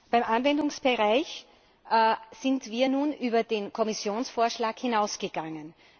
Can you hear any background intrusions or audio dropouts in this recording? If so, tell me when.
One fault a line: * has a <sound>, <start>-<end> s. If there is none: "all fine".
all fine